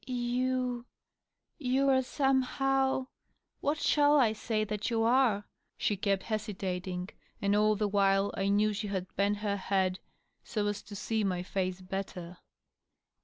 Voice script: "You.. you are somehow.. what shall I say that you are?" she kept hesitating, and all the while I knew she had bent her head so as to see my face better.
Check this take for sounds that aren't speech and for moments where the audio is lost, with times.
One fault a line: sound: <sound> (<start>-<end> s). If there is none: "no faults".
no faults